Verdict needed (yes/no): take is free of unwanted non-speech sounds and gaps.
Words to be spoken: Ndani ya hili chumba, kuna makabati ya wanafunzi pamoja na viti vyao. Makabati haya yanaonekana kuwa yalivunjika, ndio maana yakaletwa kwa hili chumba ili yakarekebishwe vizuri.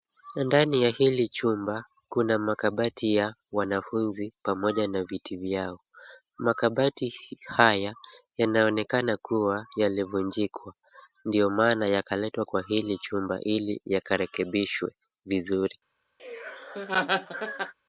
no